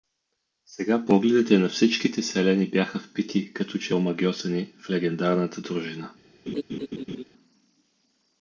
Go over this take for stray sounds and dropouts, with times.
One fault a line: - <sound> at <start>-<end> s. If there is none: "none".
- laugh at 6.5-7.2 s